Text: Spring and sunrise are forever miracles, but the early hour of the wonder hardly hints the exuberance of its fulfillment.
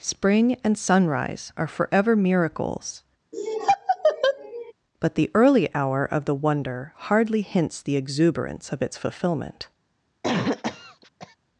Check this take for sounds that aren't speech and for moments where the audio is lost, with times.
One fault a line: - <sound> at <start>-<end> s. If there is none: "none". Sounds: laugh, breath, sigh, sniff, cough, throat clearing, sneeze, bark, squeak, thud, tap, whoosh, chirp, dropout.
- laugh at 3.3-4.7 s
- cough at 10.2-11.4 s